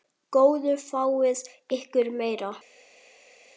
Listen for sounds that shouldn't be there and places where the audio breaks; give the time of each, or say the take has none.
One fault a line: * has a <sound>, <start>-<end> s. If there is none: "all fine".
all fine